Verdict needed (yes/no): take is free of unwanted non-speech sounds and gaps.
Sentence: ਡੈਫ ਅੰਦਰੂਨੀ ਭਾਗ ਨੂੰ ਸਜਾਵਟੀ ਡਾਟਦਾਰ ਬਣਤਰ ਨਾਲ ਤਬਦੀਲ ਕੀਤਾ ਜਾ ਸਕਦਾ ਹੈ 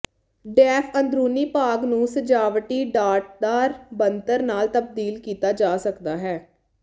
yes